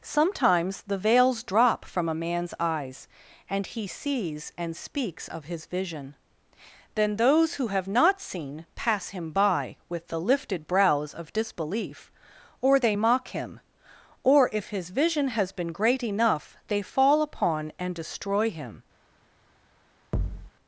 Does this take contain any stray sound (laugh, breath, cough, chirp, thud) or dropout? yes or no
yes